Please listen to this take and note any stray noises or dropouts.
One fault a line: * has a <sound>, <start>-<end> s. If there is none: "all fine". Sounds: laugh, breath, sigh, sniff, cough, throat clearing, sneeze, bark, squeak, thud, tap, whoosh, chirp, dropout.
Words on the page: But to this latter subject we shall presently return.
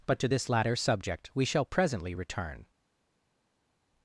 all fine